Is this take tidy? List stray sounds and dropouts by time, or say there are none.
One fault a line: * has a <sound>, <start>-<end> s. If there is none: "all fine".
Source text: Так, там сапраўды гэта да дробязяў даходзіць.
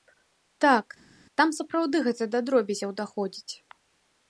all fine